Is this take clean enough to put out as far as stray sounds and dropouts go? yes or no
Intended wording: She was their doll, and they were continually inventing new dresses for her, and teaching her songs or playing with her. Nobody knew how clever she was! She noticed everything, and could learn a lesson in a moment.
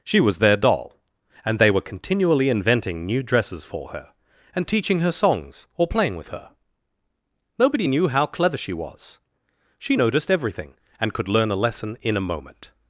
yes